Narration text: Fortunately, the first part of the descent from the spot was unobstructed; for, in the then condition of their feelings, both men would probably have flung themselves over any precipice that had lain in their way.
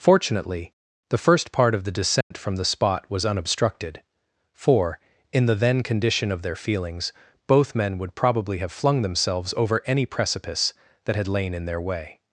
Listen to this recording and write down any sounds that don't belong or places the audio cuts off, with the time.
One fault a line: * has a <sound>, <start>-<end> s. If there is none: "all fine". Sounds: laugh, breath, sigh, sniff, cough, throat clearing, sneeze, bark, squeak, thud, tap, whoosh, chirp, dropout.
* has a dropout, 2.2-2.3 s